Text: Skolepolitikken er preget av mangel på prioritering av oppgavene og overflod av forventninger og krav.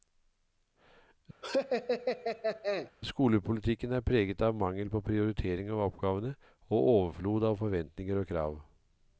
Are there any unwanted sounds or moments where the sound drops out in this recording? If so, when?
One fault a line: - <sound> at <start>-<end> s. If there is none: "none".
- laugh at 1.4-2.9 s